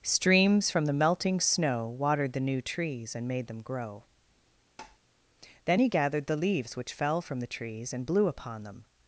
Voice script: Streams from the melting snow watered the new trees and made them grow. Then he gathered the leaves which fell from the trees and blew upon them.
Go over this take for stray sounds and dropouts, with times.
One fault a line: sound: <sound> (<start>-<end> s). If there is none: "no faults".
sound: tap (4.8-5.0 s)